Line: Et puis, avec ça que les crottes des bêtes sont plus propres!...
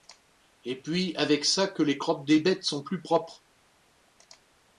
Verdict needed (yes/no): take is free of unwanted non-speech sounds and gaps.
yes